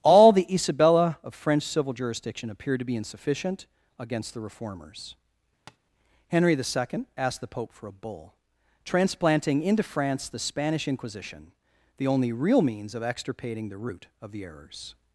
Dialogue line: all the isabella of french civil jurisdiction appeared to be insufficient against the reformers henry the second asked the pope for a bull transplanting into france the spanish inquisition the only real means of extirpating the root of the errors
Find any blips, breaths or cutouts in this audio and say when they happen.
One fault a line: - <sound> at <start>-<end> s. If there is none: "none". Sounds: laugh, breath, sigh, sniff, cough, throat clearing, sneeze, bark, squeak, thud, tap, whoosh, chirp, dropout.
- tap at 5.7-5.8 s